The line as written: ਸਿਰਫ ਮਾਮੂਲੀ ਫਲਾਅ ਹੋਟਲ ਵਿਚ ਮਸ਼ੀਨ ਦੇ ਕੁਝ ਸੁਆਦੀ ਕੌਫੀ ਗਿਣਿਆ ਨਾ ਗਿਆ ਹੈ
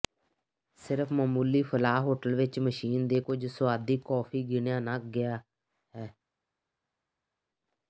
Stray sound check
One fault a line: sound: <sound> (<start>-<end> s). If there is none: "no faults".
no faults